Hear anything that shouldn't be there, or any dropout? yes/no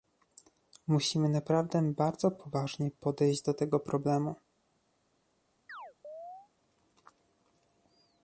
yes